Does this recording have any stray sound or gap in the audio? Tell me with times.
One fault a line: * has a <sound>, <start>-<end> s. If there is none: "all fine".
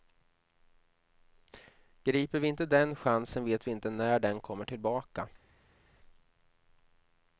all fine